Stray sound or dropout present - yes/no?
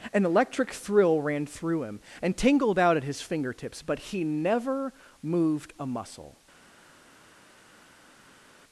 no